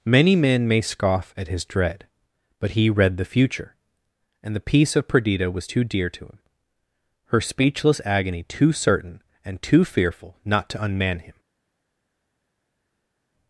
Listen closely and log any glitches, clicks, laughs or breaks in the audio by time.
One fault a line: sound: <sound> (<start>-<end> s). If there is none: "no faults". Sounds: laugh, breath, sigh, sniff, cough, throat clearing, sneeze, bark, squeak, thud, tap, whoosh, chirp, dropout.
no faults